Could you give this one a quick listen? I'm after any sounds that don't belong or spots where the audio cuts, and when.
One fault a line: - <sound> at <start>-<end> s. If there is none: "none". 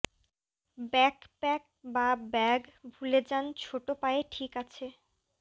none